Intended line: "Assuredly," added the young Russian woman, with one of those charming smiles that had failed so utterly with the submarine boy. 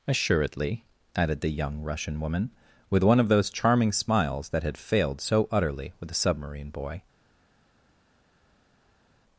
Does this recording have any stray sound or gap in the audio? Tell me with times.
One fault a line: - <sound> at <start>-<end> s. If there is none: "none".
none